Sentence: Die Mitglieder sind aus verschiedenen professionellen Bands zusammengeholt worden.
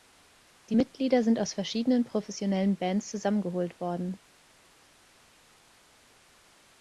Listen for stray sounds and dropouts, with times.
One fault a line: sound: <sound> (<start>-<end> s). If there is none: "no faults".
no faults